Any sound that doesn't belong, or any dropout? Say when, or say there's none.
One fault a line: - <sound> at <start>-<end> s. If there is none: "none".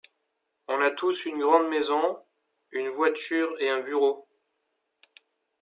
none